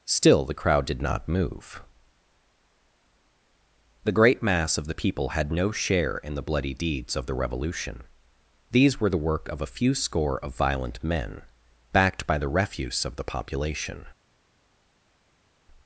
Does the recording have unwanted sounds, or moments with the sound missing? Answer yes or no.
no